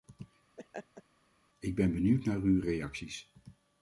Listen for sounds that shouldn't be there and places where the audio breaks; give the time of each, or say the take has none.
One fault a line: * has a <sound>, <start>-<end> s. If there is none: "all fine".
* has a laugh, 0.6-1.0 s